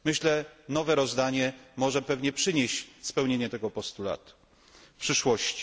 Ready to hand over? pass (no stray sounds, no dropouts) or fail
pass